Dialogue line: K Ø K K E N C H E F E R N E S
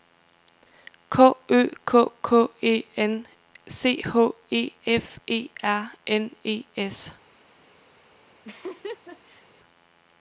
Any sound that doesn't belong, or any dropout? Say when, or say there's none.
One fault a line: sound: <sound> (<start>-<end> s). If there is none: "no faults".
sound: laugh (8.4-9.4 s)